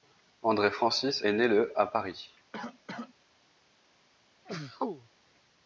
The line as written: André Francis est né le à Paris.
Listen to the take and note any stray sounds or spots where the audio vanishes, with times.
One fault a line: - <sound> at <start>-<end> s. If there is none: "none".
- cough at 2.5-3.1 s
- sneeze at 4.5-5.1 s